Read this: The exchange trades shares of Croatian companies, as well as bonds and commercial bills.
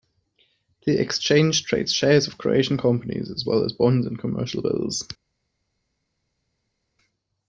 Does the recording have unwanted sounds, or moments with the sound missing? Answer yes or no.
no